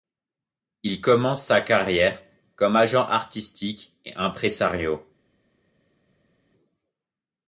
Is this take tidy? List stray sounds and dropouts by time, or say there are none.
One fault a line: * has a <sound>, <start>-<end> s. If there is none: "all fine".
all fine